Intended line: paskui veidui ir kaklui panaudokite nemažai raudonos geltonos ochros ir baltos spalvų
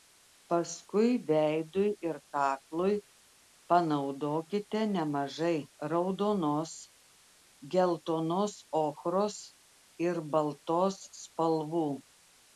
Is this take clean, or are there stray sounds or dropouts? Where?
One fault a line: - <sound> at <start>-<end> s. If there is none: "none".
none